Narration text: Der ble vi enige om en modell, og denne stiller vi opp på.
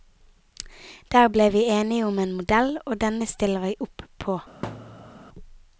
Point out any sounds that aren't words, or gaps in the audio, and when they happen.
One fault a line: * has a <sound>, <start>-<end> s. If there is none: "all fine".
* has a thud, 4.6-5.2 s